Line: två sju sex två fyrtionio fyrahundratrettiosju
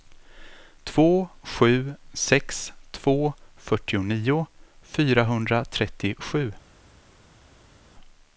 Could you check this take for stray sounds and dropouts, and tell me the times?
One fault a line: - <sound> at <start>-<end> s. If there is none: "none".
none